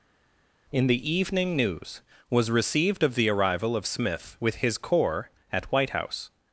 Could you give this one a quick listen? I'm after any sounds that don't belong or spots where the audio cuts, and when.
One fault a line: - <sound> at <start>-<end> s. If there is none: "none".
none